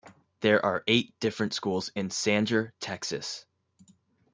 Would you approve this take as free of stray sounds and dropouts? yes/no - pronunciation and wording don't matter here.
yes